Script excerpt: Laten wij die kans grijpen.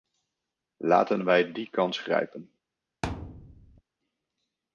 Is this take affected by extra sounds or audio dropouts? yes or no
yes